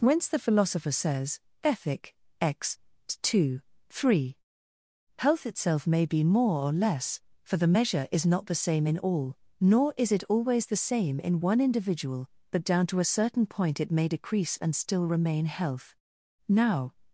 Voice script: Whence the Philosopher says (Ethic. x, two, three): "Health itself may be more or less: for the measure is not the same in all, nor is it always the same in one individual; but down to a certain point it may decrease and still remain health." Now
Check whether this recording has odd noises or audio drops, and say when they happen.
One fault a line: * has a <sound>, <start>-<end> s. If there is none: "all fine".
all fine